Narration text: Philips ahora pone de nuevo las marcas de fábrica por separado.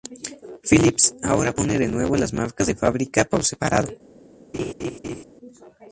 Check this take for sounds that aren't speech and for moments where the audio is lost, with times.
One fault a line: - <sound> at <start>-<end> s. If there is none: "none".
- laugh at 4.5-5.2 s